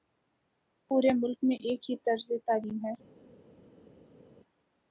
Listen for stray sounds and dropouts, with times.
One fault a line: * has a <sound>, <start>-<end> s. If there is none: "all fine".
all fine